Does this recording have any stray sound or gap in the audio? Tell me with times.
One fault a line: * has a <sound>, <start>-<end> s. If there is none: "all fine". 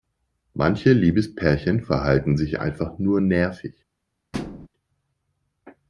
* has a thud, 4.3-4.7 s